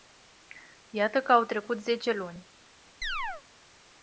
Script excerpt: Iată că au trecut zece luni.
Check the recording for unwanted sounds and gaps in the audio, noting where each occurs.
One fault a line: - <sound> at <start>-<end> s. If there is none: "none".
- chirp at 3.0-3.4 s